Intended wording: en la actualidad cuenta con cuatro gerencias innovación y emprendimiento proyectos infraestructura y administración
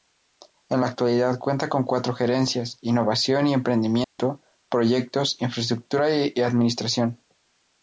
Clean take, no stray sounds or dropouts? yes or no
no